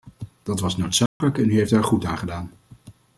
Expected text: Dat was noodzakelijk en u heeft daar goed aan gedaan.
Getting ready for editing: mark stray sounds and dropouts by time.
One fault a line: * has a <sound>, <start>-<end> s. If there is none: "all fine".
* has a dropout, 1.1-1.2 s